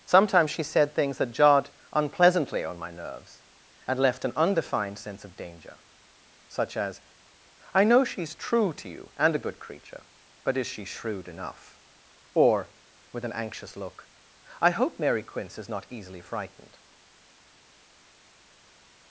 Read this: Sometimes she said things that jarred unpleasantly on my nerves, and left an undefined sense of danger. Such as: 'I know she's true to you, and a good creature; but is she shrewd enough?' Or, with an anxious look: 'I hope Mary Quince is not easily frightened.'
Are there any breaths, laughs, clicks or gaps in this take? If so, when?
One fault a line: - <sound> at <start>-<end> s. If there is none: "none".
none